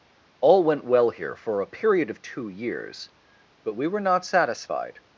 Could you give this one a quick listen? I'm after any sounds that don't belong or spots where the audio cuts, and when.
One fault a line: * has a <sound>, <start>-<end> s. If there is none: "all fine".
all fine